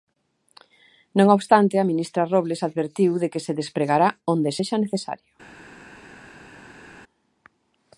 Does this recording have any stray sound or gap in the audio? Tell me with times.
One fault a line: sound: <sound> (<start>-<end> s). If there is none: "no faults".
no faults